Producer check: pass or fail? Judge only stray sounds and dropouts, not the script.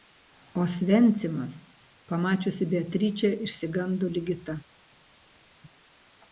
pass